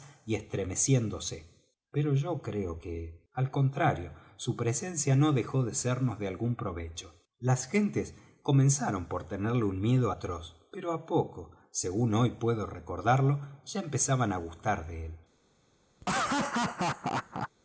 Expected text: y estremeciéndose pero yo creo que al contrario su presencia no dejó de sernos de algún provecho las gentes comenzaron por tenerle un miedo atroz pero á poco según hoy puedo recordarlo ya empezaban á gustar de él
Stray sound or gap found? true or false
true